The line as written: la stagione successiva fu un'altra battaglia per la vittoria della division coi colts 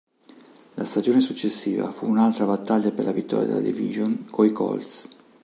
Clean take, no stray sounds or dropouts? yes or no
yes